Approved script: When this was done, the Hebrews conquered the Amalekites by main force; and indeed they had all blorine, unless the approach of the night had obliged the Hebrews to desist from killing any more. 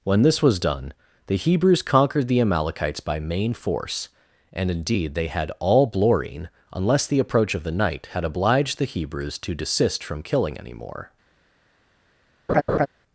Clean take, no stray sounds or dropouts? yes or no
no